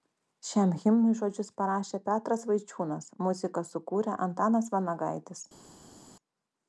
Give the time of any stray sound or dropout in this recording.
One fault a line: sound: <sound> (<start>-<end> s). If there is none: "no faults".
no faults